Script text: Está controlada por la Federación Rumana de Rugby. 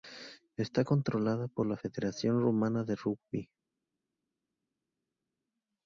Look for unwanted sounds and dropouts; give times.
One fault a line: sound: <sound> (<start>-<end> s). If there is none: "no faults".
no faults